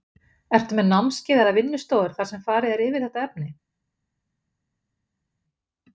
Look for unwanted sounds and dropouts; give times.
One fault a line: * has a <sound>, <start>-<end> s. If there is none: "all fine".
all fine